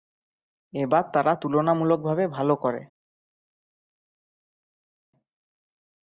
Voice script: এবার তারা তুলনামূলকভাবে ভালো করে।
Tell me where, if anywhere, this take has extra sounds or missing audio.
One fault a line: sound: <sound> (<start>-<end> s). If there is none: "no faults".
no faults